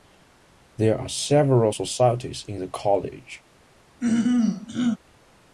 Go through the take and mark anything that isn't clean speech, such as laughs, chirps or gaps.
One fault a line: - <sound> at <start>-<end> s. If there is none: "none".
- throat clearing at 4.0-5.0 s